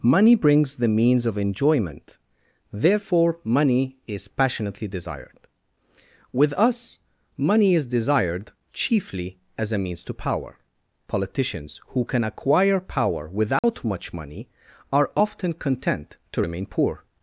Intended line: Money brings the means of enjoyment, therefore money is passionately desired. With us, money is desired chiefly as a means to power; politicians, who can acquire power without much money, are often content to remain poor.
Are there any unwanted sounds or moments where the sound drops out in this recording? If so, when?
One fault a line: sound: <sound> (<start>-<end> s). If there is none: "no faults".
sound: dropout (13.6-13.6 s)